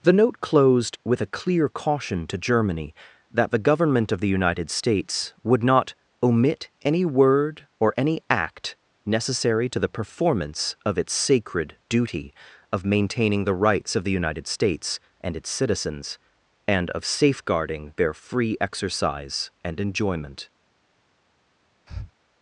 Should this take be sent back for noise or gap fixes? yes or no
yes